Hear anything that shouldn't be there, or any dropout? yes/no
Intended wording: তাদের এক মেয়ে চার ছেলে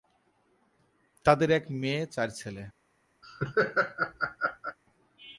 yes